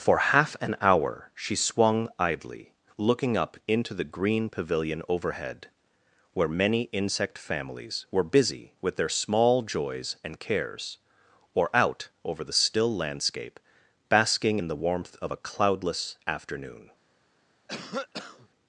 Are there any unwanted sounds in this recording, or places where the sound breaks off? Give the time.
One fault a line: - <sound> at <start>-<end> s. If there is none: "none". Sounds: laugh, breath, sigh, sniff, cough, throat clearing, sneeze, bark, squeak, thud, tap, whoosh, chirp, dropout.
- cough at 17.7-18.5 s